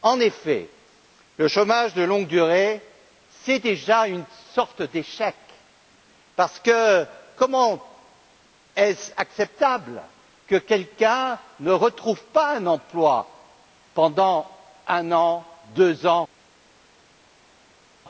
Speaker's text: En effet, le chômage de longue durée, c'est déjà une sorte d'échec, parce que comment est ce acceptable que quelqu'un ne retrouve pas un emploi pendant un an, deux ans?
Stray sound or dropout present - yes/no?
no